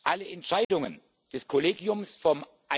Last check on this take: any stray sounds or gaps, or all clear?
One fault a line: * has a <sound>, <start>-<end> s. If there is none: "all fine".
* has a dropout, 0.6-0.7 s